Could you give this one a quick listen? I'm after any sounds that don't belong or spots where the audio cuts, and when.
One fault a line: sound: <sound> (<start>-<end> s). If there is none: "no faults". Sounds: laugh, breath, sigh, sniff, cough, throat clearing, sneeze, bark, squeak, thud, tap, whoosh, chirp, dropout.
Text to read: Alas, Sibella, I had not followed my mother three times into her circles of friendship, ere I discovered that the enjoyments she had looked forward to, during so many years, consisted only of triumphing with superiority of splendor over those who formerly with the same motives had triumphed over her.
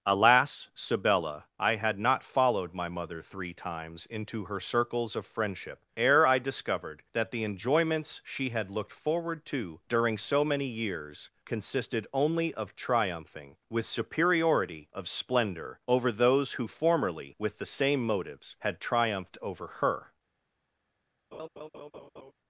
sound: laugh (21.3-22.3 s)